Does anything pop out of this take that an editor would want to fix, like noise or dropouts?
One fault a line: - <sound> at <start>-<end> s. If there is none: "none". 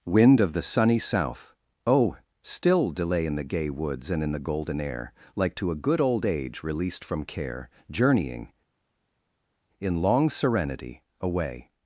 none